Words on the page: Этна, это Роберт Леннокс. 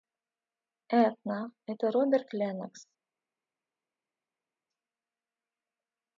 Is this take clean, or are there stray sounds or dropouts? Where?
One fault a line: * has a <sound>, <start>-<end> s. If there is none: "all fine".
all fine